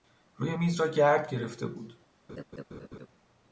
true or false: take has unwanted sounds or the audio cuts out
true